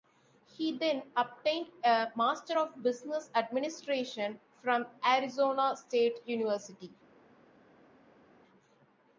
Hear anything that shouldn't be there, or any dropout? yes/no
no